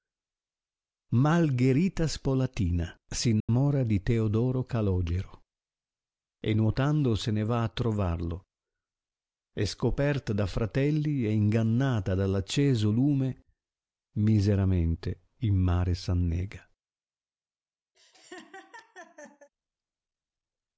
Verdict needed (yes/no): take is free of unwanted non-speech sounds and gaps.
no